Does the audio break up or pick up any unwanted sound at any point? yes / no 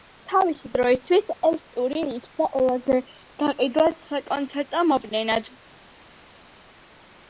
no